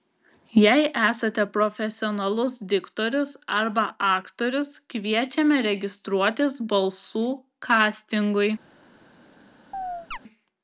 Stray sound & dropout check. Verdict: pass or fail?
fail